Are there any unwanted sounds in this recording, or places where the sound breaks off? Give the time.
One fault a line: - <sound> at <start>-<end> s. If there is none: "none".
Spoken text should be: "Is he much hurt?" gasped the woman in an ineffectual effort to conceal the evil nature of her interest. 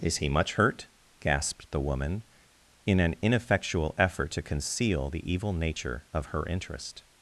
none